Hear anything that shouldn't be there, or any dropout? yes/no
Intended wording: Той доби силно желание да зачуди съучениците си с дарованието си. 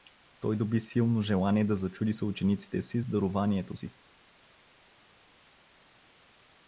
no